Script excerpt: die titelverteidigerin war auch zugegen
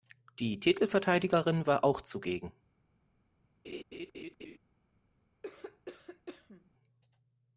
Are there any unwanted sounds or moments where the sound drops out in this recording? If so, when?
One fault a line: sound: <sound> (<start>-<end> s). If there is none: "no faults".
sound: laugh (3.6-4.6 s)
sound: cough (5.4-6.7 s)